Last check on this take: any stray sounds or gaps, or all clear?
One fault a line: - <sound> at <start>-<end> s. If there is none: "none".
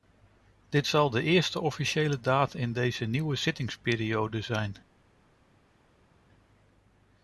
none